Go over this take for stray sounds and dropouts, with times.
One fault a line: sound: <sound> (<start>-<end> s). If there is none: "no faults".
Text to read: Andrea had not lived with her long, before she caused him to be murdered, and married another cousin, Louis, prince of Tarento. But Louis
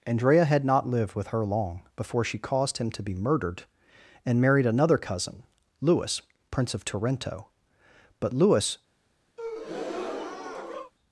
sound: breath (9.4-10.9 s)